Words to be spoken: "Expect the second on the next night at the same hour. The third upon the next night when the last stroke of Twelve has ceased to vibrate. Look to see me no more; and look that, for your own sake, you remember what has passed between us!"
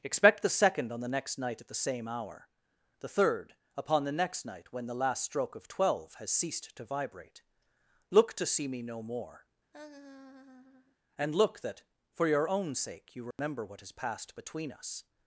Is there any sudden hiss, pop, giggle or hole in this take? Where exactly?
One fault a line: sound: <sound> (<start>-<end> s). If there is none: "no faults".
sound: laugh (9.7-11.0 s)
sound: dropout (13.3-13.4 s)